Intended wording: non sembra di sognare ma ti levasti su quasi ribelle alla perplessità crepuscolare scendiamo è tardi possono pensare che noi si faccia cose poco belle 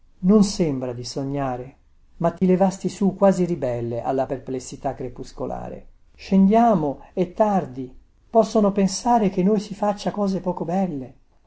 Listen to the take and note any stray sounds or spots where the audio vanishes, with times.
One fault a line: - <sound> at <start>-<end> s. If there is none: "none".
- dropout at 2.4-2.4 s